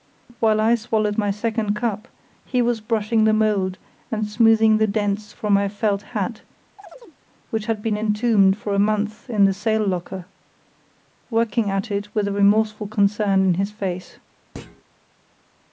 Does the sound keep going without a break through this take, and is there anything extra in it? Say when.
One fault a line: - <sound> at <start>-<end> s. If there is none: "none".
- chirp at 6.8-7.2 s
- thud at 14.5-14.8 s